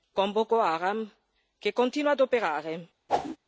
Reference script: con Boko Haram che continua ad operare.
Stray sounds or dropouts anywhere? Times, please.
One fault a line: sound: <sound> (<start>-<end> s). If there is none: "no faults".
sound: whoosh (3.1-3.4 s)